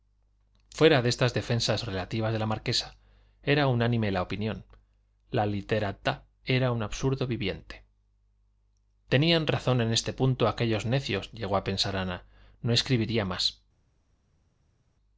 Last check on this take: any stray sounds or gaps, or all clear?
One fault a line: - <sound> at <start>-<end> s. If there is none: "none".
none